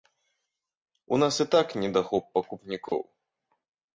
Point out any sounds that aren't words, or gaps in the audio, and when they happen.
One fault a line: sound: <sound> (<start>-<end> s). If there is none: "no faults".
sound: dropout (2.9-2.9 s)